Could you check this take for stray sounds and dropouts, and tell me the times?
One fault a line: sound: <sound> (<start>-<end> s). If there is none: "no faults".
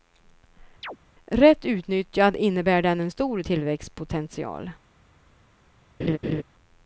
sound: chirp (0.8-1.0 s)
sound: laugh (6.0-6.4 s)